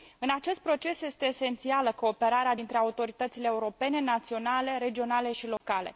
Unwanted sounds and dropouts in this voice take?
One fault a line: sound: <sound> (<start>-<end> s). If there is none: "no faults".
sound: dropout (5.6-5.6 s)